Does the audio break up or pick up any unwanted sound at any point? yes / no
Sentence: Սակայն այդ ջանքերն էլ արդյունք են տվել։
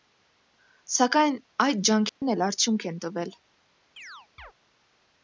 yes